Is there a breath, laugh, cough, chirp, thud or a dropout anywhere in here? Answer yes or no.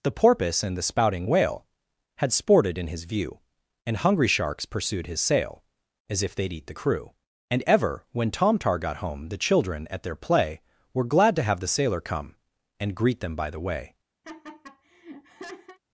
yes